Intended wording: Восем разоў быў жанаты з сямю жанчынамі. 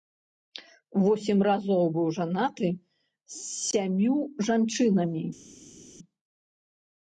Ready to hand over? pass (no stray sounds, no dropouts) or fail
pass